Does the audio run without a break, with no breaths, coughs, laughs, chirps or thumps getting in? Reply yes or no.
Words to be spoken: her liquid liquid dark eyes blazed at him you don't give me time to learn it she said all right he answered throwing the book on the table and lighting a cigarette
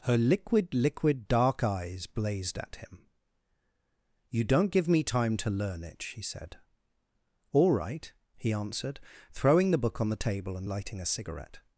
yes